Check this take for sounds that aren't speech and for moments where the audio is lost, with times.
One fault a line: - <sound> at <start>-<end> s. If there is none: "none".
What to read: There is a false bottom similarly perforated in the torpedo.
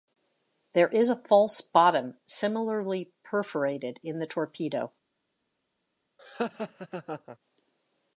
- laugh at 6.2-7.4 s